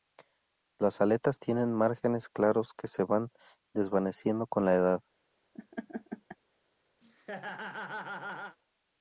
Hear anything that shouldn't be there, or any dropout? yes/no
yes